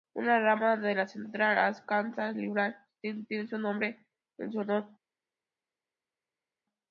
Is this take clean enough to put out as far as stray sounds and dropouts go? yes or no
yes